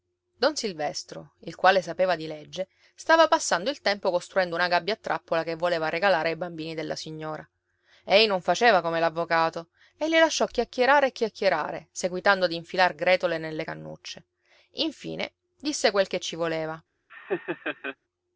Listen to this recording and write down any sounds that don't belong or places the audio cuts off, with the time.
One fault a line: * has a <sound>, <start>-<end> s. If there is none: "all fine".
* has a laugh, 17.1-18.0 s